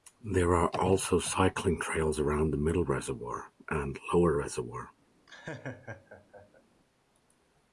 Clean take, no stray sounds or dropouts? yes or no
no